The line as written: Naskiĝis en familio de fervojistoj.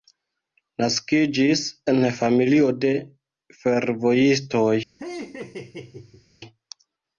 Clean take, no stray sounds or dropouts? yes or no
no